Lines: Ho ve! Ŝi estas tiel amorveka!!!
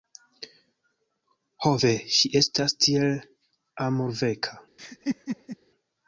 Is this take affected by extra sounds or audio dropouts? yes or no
yes